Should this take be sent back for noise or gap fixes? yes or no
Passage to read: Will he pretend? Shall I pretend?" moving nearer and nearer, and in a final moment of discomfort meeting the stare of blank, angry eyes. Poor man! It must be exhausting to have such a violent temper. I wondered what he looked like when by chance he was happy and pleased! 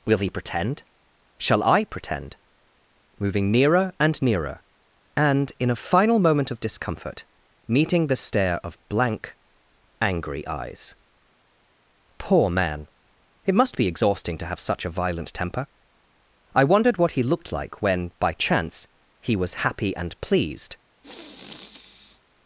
yes